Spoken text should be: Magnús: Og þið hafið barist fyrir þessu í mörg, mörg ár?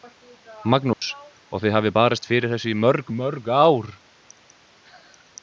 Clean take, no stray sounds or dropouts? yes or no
no